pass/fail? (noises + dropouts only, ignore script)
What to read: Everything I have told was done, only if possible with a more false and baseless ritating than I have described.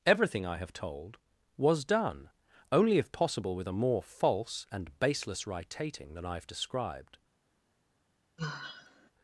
fail